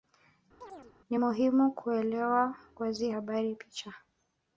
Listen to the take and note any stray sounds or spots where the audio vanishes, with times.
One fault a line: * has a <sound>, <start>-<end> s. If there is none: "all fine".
* has a chirp, 0.6-0.9 s